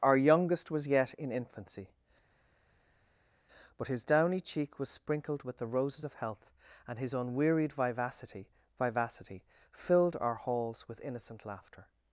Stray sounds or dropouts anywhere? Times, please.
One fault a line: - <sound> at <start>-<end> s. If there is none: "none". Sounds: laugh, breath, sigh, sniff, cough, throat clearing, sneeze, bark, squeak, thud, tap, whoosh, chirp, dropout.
none